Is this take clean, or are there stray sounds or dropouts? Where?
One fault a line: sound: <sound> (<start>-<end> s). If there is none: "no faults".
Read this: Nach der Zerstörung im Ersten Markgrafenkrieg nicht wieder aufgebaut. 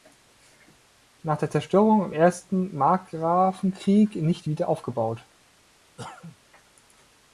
sound: cough (6.0-6.4 s)